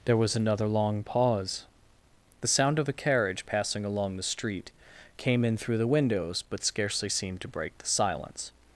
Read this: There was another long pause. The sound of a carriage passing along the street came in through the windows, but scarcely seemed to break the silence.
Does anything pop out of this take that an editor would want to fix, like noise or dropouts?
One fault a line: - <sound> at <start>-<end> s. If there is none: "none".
none